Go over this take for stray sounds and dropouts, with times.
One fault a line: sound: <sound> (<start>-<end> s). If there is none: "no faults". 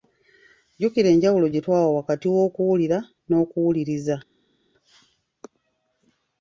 no faults